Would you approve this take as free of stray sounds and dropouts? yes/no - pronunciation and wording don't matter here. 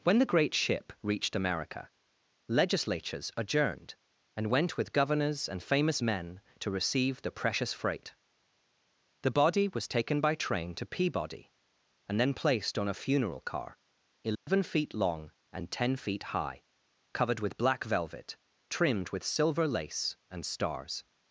no